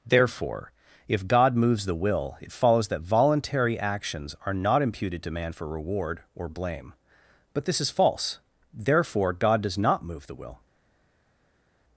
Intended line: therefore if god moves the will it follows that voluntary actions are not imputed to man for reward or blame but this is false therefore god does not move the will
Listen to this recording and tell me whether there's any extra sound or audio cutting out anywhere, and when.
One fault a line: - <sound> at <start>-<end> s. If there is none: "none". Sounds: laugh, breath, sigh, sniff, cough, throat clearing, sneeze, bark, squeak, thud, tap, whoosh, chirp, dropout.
none